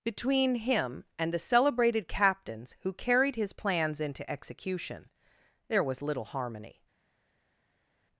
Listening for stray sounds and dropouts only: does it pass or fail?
pass